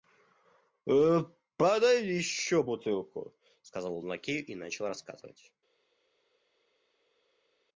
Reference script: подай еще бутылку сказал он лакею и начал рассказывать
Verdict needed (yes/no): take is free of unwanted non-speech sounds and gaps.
yes